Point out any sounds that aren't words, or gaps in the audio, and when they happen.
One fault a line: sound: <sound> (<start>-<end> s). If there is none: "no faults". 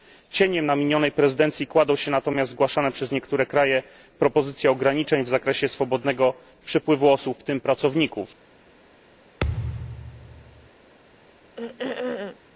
sound: thud (9.4-10.7 s)
sound: throat clearing (11.6-12.4 s)